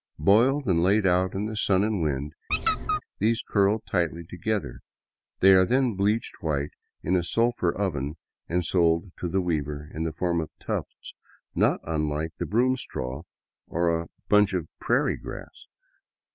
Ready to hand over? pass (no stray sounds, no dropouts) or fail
fail